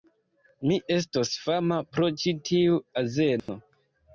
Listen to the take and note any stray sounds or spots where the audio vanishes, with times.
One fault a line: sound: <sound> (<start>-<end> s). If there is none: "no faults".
sound: dropout (3.4-3.5 s)